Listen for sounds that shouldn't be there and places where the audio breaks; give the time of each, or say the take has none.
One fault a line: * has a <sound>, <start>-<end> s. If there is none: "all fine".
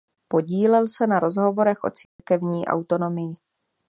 * has a dropout, 2.1-2.2 s